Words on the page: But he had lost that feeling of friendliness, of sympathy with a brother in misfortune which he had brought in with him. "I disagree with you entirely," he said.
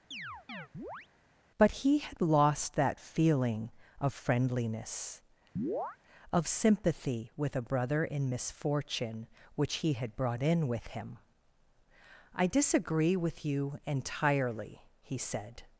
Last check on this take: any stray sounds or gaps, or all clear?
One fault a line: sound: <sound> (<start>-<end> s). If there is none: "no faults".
sound: chirp (0.1-1.1 s)
sound: chirp (5.6-6.0 s)